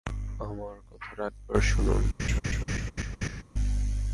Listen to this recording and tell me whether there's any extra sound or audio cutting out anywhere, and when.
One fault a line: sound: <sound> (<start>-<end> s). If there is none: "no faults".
sound: laugh (2.2-3.4 s)